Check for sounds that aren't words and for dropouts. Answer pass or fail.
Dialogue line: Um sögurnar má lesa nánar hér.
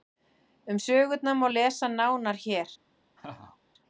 fail